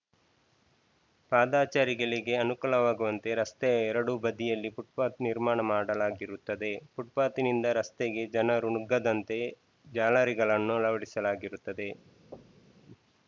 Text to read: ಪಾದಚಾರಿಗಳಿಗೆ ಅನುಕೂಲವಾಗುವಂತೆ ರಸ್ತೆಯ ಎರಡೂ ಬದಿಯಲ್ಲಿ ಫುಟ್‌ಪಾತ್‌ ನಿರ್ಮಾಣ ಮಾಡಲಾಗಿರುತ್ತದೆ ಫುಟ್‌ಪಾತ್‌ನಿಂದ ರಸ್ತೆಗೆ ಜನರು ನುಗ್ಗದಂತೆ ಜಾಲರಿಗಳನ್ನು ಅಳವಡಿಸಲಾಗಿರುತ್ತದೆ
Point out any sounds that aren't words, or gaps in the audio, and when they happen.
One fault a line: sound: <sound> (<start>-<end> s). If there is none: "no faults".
sound: thud (12.3-12.9 s)